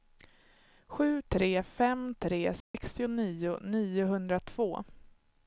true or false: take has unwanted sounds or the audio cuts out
true